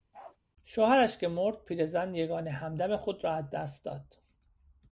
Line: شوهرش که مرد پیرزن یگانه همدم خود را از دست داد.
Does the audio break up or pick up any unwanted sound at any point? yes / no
yes